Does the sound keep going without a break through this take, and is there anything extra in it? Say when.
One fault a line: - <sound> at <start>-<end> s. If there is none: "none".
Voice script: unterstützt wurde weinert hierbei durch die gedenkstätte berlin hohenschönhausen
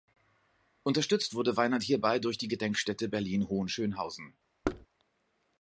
- thud at 4.6-4.9 s